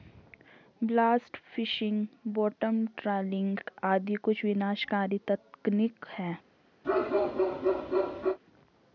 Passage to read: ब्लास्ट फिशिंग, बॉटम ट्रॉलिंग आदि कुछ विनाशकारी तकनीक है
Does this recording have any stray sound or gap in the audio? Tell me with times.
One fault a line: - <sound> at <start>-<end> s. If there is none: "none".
- bark at 6.8-8.4 s